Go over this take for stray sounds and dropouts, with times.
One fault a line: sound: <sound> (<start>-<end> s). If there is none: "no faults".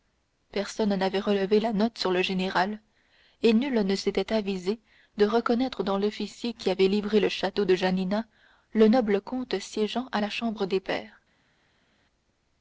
no faults